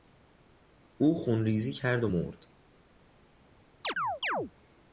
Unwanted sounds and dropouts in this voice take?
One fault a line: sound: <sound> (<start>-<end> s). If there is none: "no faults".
sound: chirp (3.8-4.5 s)